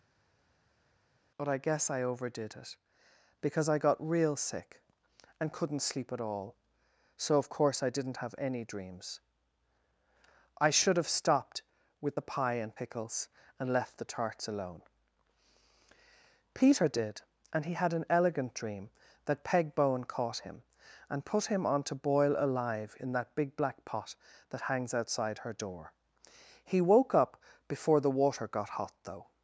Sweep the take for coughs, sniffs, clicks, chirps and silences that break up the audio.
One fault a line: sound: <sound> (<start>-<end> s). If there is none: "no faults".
no faults